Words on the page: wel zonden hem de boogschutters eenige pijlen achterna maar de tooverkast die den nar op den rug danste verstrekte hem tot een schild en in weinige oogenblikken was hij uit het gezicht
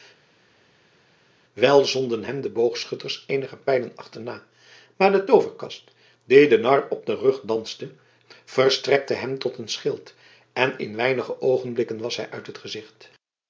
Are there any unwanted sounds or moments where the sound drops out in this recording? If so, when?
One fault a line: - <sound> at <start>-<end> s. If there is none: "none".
none